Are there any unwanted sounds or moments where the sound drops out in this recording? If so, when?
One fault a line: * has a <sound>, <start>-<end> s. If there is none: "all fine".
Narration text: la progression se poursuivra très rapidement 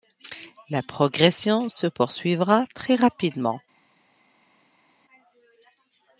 all fine